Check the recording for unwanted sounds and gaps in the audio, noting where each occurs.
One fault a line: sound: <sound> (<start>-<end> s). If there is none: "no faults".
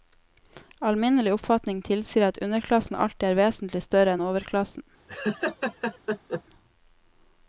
sound: laugh (5.1-6.4 s)